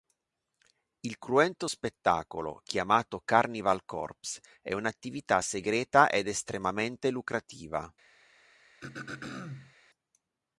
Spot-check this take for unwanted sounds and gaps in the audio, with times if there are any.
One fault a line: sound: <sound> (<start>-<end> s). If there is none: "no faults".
sound: throat clearing (8.8-9.7 s)